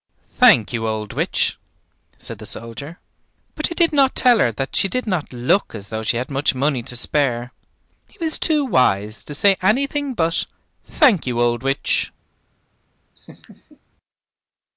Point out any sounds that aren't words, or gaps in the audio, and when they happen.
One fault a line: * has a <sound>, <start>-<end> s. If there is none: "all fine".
* has a laugh, 13.2-13.8 s